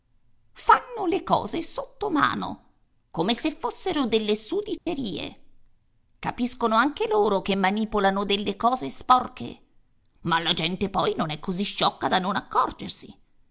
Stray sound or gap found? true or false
true